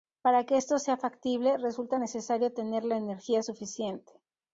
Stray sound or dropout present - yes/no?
no